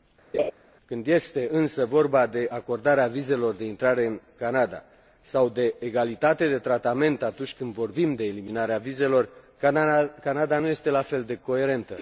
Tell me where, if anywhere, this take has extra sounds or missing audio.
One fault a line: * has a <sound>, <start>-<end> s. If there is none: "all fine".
* has a laugh, 0.3-0.5 s